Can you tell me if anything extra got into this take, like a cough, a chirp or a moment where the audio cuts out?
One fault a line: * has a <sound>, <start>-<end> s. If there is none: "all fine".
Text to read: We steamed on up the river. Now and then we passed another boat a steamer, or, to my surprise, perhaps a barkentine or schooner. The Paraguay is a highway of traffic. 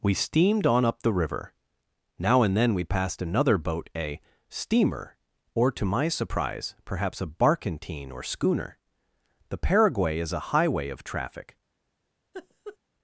* has a laugh, 12.3-12.8 s